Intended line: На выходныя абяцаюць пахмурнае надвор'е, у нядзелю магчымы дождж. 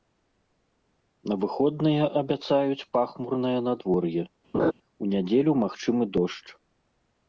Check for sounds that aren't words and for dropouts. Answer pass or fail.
fail